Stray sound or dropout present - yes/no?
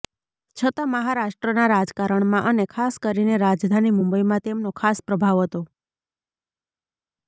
no